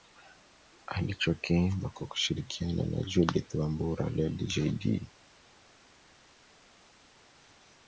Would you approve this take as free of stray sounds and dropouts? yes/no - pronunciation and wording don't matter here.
yes